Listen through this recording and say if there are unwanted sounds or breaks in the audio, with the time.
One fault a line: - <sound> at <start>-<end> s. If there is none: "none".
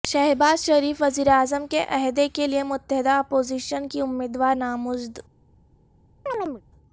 - chirp at 6.3-6.6 s